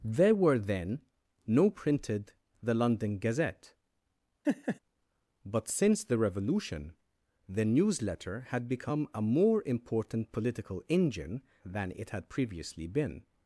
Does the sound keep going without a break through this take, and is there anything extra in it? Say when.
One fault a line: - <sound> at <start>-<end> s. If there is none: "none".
- laugh at 4.4-4.8 s